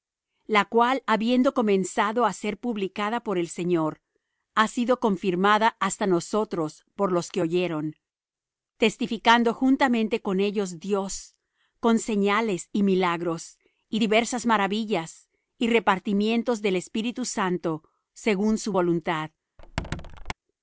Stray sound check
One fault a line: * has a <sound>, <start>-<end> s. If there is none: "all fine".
* has a squeak, 19.6-20.3 s